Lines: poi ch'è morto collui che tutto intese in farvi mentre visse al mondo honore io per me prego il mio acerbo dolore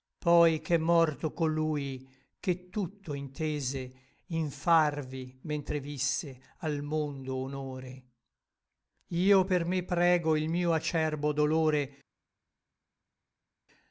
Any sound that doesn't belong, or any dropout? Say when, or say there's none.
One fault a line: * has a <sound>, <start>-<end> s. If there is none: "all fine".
all fine